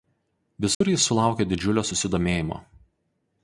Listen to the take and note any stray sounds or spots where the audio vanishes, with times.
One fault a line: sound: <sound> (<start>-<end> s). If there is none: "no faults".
sound: dropout (0.7-0.8 s)